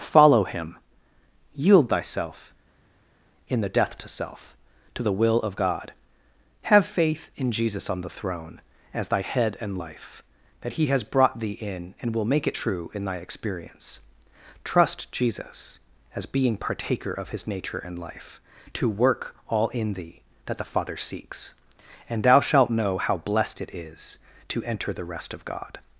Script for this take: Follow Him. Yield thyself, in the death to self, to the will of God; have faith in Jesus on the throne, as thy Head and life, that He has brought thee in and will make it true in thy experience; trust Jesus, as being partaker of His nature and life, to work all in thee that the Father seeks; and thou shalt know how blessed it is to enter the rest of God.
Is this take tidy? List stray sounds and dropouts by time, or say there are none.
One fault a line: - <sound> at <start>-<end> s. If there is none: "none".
none